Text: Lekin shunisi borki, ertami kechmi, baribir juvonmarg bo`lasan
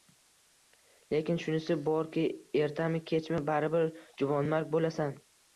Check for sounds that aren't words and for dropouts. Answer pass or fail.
pass